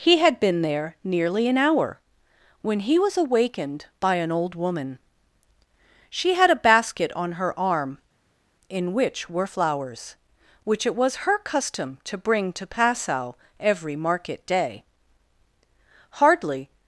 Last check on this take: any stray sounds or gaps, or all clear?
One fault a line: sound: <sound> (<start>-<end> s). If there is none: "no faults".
no faults